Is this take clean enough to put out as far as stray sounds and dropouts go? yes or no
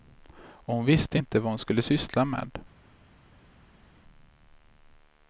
yes